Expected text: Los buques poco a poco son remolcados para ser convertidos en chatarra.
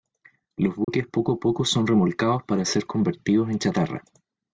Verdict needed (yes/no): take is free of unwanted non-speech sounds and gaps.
no